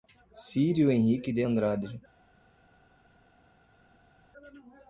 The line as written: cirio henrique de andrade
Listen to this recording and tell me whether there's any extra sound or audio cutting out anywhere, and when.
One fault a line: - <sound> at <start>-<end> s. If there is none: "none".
none